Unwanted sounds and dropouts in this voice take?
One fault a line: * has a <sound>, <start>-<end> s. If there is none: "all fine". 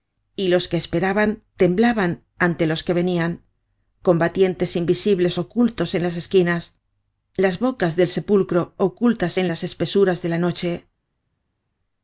all fine